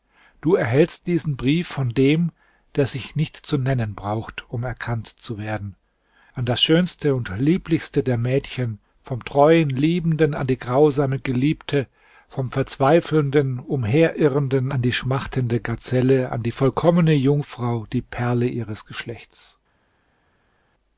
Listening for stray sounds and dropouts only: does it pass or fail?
pass